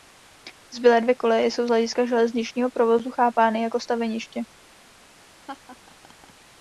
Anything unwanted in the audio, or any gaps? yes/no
yes